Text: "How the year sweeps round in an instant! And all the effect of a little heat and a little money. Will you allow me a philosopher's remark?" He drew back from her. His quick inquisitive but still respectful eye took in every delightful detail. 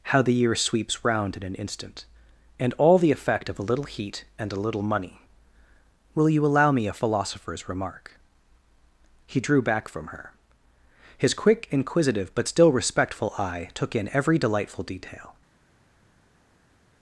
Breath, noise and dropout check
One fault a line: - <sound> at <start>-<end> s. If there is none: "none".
none